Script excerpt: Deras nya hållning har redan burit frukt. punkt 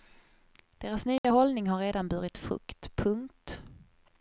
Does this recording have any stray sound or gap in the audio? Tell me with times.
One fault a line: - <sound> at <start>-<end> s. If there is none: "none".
- dropout at 1.2-1.2 s